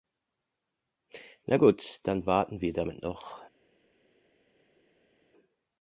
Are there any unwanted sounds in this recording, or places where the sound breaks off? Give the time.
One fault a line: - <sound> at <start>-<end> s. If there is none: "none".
none